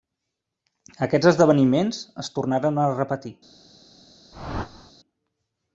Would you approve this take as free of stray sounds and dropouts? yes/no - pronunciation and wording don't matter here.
no